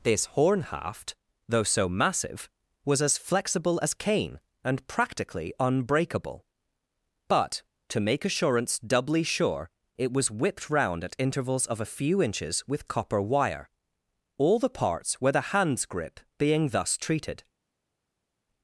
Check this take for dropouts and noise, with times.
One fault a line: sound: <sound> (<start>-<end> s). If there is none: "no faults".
no faults